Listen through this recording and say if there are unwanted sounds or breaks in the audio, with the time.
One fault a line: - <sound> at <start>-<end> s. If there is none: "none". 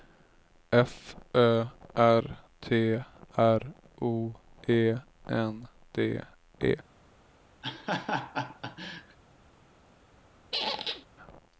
- laugh at 7.6-9.2 s
- squeak at 10.5-11.1 s